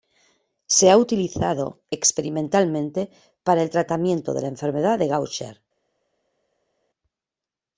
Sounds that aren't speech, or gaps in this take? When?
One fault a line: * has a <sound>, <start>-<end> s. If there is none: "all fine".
all fine